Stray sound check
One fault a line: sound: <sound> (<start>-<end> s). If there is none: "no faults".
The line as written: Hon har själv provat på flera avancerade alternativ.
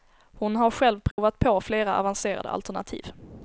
sound: dropout (1.1-1.2 s)